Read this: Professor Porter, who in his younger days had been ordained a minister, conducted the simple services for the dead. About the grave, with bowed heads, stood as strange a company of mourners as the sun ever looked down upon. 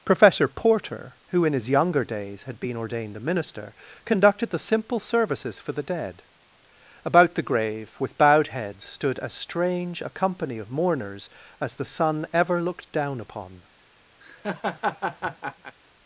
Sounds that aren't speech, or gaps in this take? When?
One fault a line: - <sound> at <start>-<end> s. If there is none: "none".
- laugh at 14.2-15.8 s